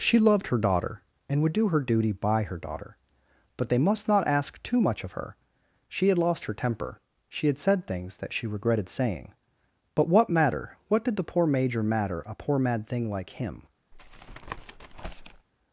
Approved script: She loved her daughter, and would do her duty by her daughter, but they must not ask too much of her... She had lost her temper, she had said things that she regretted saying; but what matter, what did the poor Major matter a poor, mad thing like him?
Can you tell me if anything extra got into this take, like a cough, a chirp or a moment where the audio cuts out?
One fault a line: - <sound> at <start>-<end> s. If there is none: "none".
- tap at 13.9-15.5 s